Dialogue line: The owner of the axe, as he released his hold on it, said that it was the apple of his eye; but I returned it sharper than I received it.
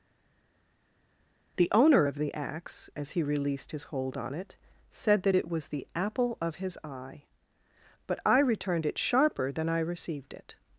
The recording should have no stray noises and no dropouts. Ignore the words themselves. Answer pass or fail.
pass